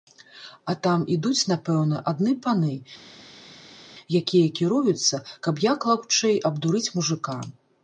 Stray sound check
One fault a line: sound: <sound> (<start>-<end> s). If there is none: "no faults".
no faults